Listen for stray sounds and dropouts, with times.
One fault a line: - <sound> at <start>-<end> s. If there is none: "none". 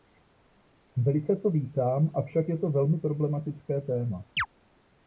- chirp at 4.4-4.5 s